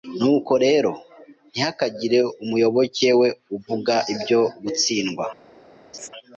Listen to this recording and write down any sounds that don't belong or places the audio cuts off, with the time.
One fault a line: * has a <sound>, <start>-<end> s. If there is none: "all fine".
* has a laugh, 5.9-6.1 s